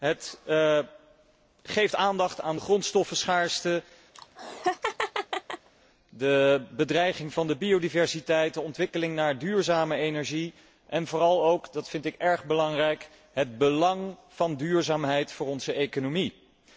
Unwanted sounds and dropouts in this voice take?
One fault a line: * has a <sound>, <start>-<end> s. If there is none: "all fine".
* has a laugh, 4.1-5.7 s